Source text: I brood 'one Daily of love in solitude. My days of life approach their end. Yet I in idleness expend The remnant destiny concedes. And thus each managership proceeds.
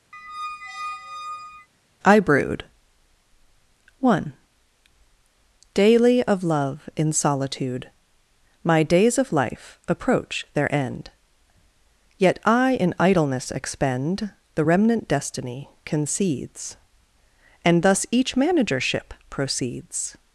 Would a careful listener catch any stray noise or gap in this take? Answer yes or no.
yes